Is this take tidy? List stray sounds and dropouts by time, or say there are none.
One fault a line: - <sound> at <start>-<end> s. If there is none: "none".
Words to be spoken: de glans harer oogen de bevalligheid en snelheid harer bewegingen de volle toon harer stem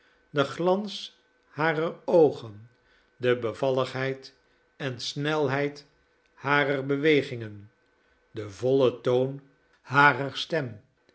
none